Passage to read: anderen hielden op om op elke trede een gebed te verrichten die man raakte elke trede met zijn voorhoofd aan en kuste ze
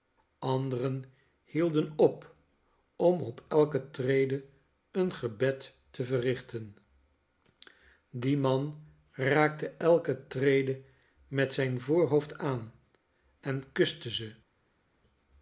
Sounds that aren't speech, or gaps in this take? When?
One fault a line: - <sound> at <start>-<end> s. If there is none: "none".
none